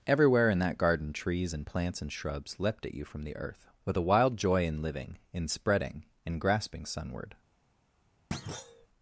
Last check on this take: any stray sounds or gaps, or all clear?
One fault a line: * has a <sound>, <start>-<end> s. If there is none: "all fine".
* has a thud, 8.3-8.9 s